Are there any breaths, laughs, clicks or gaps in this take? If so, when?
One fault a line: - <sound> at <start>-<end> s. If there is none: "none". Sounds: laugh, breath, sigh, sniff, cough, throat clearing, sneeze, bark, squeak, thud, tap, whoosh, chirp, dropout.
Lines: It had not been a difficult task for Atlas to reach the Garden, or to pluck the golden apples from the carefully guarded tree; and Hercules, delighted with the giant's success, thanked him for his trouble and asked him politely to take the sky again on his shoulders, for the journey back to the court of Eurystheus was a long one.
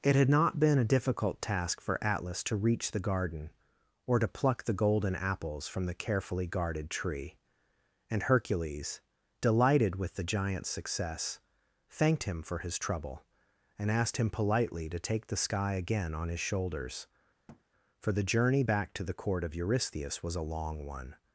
- thud at 17.5-17.6 s